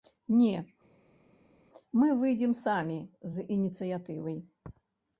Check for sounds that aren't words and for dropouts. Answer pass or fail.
pass